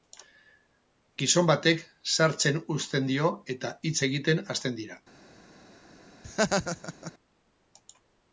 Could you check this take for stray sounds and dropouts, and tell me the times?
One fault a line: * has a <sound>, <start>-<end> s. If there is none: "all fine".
* has a laugh, 6.2-7.1 s